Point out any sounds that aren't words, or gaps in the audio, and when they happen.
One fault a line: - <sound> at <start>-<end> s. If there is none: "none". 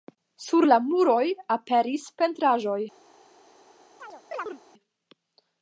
- chirp at 4.0-4.6 s